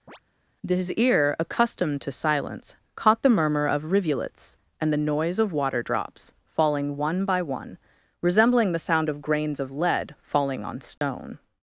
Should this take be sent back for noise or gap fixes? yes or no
yes